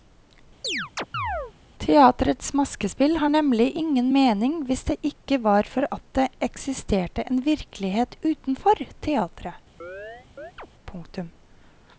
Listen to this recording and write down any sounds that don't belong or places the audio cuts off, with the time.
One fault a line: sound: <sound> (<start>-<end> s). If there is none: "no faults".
sound: chirp (0.6-1.5 s)
sound: chirp (9.8-10.7 s)